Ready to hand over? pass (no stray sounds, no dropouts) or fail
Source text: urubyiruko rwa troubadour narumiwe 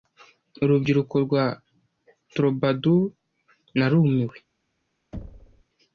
fail